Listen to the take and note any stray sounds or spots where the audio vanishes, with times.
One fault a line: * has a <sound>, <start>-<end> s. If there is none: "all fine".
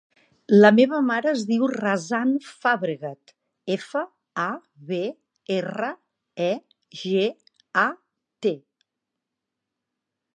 all fine